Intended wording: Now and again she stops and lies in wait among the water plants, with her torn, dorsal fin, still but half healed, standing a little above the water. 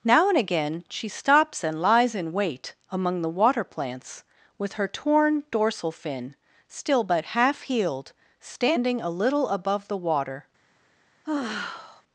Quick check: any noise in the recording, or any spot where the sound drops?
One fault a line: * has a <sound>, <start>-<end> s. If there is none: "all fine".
* has a sigh, 11.2-12.0 s